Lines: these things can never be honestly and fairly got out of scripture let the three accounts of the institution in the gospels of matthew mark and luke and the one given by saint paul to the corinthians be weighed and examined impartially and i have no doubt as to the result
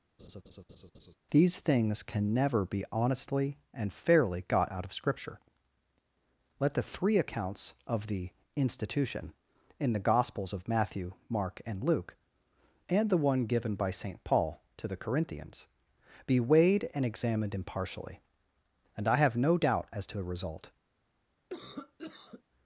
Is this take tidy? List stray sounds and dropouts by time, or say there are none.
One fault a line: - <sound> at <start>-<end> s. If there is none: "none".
- laugh at 0.2-1.2 s
- cough at 21.5-22.4 s